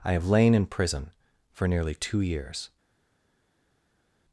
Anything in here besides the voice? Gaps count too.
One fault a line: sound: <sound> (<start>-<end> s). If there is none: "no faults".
no faults